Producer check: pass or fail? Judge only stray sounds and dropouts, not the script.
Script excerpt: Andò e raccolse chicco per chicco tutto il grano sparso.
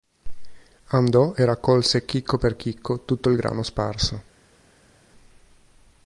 pass